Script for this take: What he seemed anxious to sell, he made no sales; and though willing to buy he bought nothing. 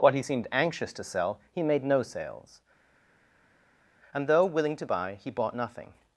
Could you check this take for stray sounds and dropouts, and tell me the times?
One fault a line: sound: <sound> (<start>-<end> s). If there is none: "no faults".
no faults